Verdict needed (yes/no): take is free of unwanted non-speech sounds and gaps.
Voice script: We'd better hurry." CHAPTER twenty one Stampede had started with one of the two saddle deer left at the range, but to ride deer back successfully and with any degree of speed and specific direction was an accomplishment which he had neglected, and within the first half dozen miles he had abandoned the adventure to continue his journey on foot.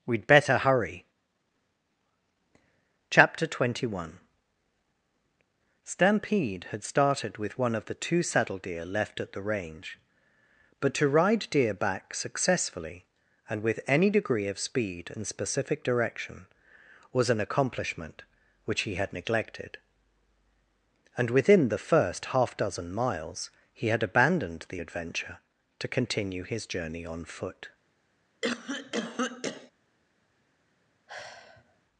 no